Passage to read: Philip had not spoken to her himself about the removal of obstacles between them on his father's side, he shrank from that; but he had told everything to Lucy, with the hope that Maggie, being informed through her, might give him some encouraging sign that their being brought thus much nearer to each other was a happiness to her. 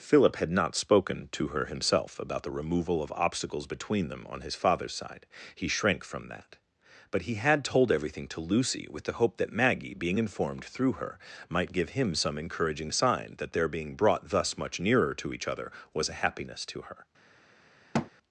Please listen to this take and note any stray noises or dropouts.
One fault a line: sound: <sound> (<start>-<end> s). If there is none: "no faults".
sound: thud (17.9-18.1 s)